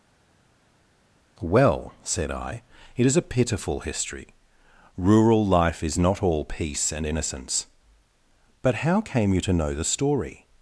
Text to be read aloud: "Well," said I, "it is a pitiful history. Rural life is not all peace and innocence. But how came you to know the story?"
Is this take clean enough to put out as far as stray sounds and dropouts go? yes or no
yes